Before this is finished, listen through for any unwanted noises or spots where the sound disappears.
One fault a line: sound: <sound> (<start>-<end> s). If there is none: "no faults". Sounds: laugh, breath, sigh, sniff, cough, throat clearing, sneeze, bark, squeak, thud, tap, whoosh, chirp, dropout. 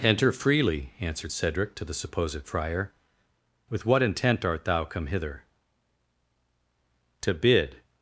no faults